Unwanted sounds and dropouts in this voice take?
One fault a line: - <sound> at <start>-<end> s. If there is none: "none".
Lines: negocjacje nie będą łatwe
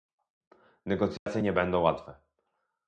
- dropout at 1.2-1.3 s